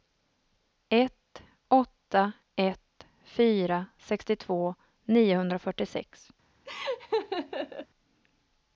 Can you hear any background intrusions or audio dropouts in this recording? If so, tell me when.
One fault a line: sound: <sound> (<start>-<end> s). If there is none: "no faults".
sound: laugh (6.7-7.9 s)